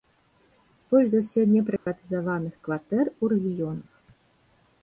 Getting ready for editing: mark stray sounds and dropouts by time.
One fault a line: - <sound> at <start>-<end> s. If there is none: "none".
- dropout at 1.8-1.9 s